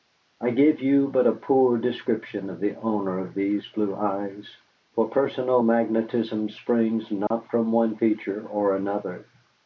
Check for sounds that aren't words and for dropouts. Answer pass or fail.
fail